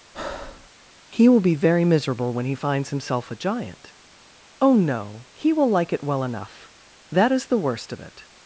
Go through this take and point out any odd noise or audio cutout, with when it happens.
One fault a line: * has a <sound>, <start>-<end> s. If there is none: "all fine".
* has a breath, 0.1-0.7 s